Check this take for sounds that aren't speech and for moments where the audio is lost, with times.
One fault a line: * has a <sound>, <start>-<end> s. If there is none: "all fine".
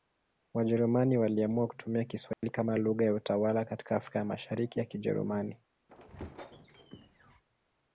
* has a dropout, 2.3-2.4 s
* has a squeak, 5.9-7.4 s